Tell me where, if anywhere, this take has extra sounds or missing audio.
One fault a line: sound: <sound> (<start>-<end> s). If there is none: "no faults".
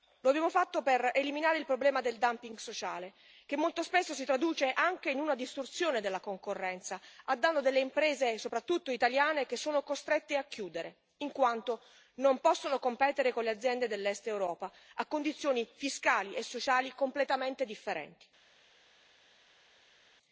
no faults